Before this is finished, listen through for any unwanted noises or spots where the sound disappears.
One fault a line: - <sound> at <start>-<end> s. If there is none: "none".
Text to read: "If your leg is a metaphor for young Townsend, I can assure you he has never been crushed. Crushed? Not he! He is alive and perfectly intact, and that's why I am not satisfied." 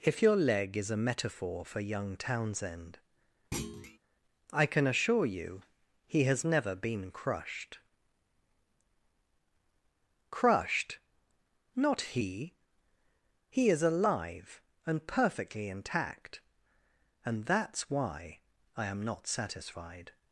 - thud at 3.5-4.0 s